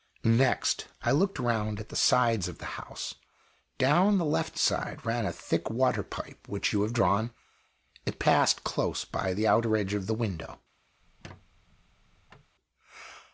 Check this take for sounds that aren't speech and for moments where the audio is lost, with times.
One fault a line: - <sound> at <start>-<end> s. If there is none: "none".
- squeak at 11.0-12.5 s